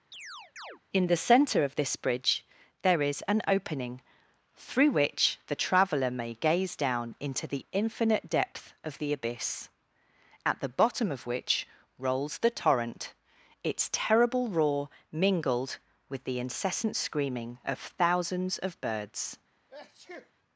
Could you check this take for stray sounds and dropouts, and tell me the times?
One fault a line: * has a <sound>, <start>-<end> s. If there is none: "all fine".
* has a chirp, 0.1-0.8 s
* has a sneeze, 19.7-20.3 s